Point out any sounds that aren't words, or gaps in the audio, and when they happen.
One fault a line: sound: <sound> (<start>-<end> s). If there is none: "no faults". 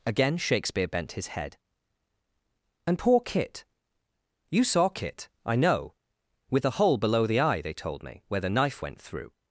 no faults